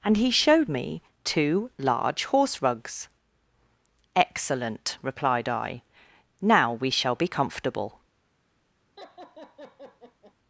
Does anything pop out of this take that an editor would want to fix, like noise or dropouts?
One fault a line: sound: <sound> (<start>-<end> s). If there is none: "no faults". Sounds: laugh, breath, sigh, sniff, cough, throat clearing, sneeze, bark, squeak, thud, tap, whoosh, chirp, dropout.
sound: laugh (9.0-10.3 s)